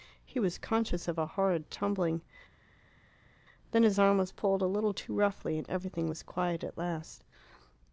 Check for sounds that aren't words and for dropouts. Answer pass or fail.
pass